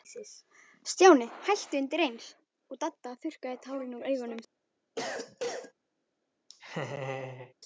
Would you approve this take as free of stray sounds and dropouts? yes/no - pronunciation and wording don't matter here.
no